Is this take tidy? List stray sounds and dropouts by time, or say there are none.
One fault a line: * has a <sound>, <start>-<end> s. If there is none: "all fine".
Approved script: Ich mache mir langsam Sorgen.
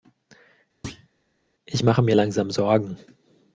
* has a thud, 0.8-1.1 s